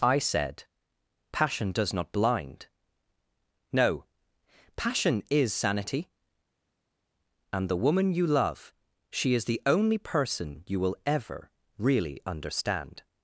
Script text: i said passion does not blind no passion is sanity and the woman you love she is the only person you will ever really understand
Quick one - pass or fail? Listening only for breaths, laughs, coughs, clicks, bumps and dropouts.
pass